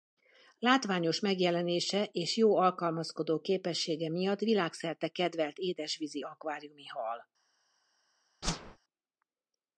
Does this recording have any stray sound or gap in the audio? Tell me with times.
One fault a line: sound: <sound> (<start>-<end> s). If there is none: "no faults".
sound: whoosh (8.4-8.8 s)